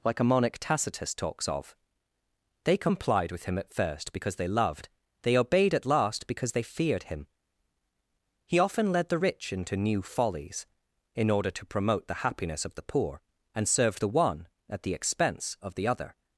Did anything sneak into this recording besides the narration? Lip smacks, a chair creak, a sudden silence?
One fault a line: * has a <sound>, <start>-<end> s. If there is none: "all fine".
all fine